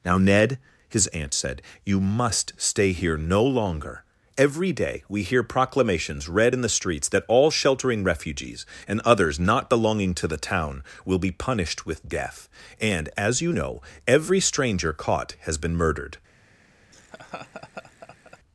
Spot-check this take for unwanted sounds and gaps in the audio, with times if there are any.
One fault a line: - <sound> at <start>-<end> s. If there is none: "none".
- laugh at 16.9-18.4 s